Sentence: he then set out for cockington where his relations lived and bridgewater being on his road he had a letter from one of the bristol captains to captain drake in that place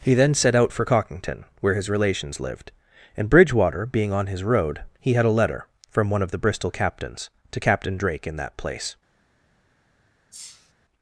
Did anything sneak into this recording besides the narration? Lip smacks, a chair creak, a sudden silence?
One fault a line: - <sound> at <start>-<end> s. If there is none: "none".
- sneeze at 10.3-10.7 s